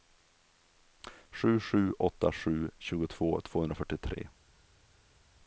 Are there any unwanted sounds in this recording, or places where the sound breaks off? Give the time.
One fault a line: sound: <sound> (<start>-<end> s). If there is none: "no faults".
no faults